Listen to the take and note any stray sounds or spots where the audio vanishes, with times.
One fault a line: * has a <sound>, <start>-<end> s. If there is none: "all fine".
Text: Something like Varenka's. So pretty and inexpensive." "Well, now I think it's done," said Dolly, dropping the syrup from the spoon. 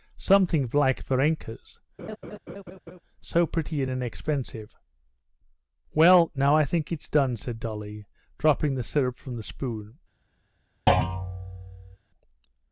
* has a laugh, 2.0-3.0 s
* has a thud, 10.9-12.0 s